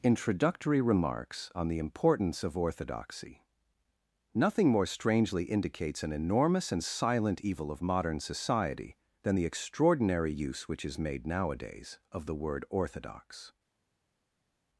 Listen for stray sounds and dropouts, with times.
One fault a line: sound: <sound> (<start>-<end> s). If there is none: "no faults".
no faults